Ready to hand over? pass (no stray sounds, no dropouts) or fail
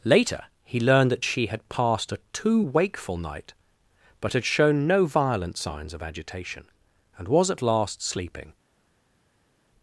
pass